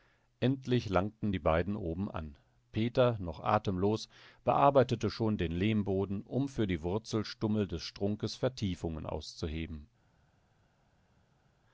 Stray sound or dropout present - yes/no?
no